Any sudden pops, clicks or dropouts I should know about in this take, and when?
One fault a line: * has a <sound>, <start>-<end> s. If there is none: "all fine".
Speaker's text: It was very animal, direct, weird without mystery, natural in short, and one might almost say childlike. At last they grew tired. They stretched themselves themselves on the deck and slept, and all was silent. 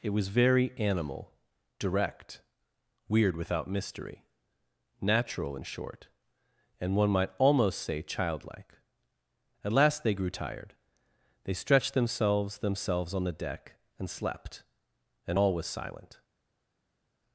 all fine